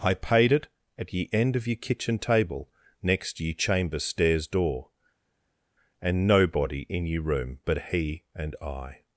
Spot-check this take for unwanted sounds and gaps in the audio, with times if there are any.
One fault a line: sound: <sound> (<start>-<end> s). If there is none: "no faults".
no faults